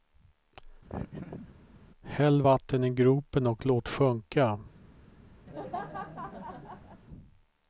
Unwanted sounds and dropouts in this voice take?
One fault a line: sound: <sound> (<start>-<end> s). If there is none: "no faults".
sound: laugh (0.9-1.6 s)
sound: laugh (5.5-7.0 s)